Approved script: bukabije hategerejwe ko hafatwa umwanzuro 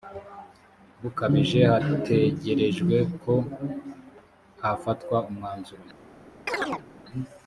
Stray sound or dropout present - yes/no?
yes